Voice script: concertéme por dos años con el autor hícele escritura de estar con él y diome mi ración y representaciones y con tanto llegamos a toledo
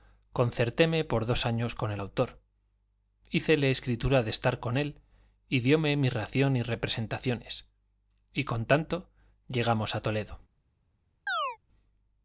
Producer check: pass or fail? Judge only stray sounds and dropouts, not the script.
fail